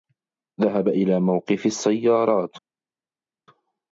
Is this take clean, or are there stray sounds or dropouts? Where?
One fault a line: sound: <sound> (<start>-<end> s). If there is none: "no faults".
no faults